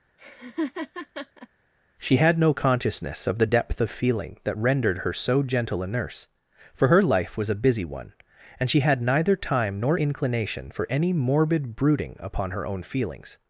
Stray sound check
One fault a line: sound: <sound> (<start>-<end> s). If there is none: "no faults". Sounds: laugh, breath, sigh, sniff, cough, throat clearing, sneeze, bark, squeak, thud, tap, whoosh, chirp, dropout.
sound: laugh (0.2-1.5 s)